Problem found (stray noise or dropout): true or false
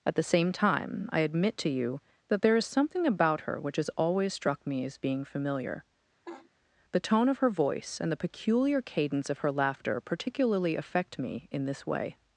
true